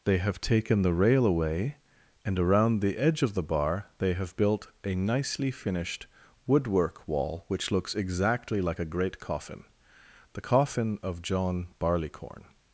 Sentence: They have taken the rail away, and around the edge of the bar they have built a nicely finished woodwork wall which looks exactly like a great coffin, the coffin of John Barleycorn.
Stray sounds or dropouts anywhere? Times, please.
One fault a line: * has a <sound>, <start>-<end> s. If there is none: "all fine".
all fine